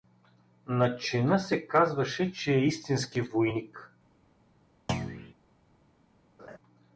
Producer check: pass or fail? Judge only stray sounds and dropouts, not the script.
fail